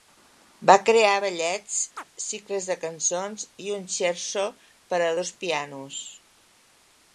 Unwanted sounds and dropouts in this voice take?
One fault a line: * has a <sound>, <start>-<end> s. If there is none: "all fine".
* has a chirp, 2.0-2.0 s